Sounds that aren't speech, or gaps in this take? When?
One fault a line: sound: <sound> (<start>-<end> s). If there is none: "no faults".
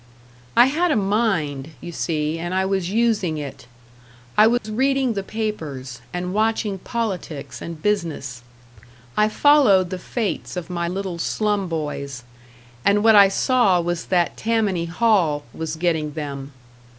sound: dropout (4.6-4.6 s)